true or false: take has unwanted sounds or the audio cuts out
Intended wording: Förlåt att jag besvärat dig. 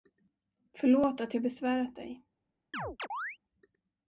true